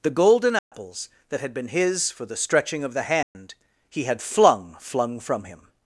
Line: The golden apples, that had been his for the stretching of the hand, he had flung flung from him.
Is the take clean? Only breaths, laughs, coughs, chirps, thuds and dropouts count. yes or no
no